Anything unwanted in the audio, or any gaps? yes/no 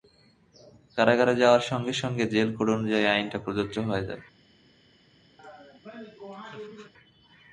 yes